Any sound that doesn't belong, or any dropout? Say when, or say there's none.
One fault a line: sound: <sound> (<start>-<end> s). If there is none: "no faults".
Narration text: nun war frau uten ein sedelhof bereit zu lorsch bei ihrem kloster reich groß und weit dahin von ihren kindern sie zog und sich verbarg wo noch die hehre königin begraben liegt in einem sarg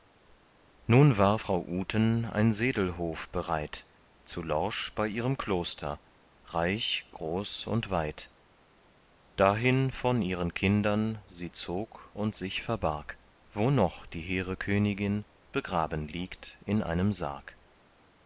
no faults